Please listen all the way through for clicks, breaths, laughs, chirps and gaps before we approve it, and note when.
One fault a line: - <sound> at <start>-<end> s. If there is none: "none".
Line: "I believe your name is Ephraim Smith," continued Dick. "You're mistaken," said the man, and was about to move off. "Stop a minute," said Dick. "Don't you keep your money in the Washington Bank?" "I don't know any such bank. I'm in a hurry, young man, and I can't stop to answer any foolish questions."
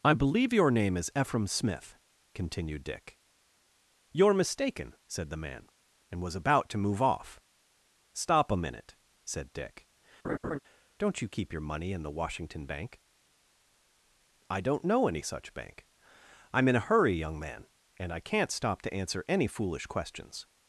- laugh at 10.2-10.6 s